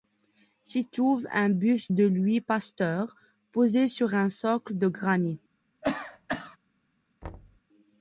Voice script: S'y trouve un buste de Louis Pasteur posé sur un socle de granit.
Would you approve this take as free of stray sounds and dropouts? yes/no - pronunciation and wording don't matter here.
no